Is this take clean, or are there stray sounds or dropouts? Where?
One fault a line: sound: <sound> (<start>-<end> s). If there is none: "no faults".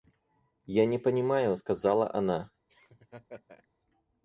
sound: laugh (2.7-3.7 s)